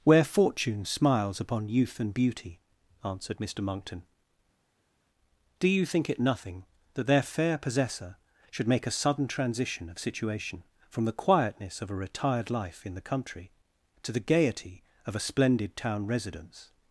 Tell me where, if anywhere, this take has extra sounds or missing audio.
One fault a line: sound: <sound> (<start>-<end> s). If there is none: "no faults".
no faults